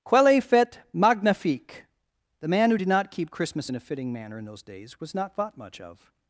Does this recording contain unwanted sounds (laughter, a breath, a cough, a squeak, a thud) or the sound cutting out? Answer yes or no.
no